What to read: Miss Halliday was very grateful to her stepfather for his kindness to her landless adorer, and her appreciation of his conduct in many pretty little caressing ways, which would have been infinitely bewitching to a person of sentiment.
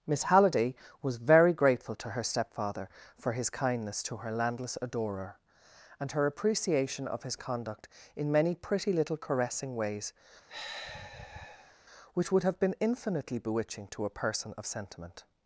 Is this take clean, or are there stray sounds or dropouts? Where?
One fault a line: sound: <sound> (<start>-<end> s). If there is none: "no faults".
sound: sigh (10.5-11.7 s)